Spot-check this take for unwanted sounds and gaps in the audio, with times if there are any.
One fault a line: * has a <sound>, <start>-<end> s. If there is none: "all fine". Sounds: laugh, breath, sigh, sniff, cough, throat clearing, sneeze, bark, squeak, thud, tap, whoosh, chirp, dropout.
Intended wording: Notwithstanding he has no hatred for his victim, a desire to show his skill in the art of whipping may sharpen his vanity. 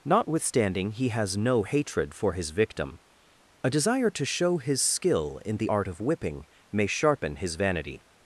all fine